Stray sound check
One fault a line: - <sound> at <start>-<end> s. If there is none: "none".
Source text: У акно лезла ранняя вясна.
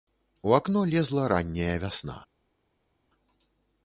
none